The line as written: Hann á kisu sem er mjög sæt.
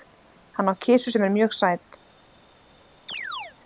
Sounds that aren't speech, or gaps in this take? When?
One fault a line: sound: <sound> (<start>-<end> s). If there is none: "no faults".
sound: chirp (3.1-3.6 s)